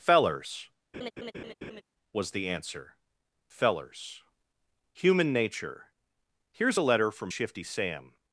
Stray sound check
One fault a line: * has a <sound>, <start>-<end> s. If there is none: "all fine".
* has a laugh, 0.9-1.8 s